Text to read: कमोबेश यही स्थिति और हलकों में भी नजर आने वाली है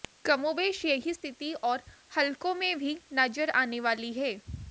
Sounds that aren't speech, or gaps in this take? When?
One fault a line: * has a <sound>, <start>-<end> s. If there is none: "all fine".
all fine